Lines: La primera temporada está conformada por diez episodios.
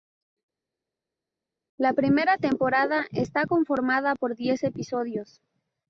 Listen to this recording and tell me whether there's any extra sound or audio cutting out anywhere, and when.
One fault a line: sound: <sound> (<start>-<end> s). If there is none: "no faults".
no faults